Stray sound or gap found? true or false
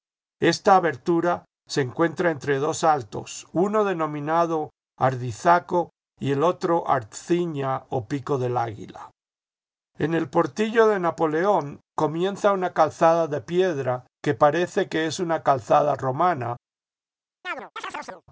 true